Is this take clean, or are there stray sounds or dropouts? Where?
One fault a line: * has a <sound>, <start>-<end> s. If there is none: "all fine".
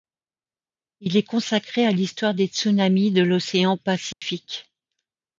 * has a dropout, 4.1-4.2 s